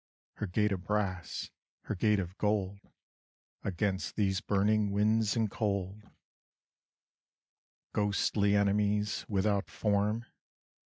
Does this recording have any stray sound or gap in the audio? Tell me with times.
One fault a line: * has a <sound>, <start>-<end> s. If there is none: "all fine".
all fine